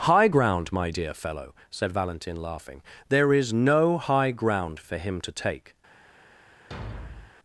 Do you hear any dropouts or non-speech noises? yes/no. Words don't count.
yes